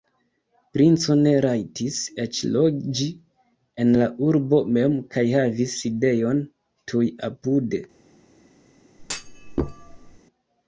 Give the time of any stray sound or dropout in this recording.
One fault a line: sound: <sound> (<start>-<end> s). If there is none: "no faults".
sound: thud (9.0-10.2 s)